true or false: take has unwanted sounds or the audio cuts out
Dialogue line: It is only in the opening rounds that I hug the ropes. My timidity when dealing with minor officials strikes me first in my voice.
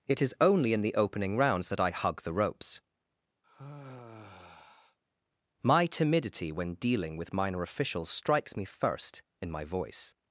true